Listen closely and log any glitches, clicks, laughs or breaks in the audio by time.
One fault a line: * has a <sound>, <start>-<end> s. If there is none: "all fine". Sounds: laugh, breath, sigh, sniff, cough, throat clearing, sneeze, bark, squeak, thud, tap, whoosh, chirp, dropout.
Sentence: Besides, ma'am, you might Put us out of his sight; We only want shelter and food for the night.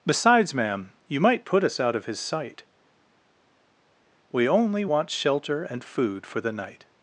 all fine